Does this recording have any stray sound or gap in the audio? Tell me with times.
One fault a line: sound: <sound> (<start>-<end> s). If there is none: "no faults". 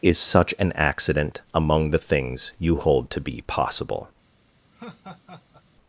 sound: laugh (4.7-5.6 s)